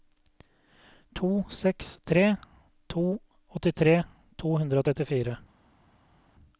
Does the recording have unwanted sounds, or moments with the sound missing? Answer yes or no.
no